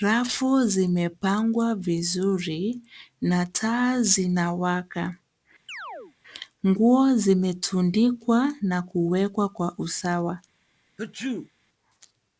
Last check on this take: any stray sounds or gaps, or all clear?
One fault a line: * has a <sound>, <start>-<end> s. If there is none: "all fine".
* has a chirp, 5.7-6.2 s
* has a sneeze, 11.0-11.5 s